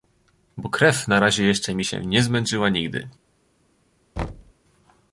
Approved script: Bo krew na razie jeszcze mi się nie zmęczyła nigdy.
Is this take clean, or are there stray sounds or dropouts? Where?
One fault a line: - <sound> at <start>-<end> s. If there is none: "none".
- thud at 4.2-4.5 s